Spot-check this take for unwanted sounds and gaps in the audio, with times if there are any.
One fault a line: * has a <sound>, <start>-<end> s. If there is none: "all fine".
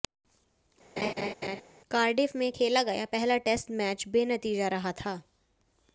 * has a laugh, 1.0-1.6 s